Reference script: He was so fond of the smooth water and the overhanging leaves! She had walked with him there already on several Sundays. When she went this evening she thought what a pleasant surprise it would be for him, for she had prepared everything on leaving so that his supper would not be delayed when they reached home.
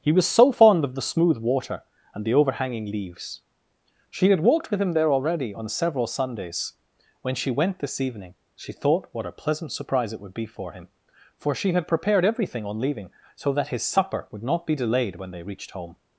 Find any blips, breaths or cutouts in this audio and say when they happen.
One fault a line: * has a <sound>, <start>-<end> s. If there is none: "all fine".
all fine